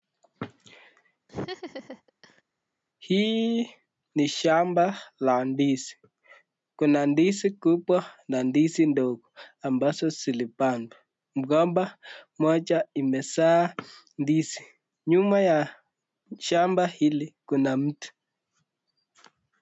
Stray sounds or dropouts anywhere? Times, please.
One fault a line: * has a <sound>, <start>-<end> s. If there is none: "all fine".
* has a laugh, 1.3-2.4 s